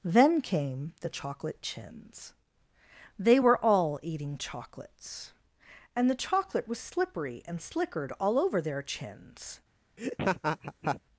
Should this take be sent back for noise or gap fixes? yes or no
yes